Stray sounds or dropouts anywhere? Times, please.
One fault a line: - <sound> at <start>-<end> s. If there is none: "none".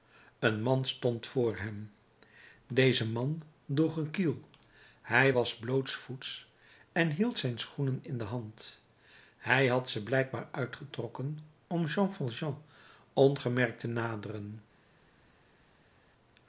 none